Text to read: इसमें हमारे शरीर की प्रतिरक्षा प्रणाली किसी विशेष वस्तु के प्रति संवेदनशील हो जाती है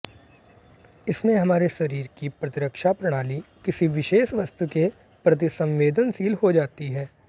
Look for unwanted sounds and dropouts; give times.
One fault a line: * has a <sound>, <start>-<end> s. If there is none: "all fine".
all fine